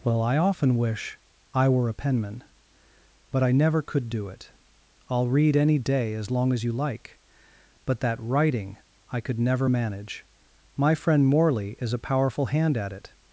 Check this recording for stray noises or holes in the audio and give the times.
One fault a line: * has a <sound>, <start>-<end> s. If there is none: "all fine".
all fine